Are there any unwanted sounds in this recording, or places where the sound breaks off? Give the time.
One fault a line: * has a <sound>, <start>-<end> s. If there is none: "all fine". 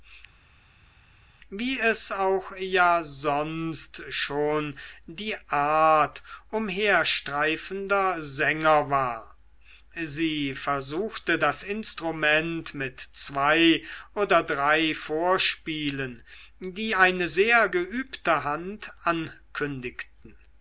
all fine